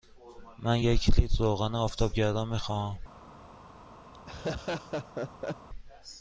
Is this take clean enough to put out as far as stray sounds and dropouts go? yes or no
no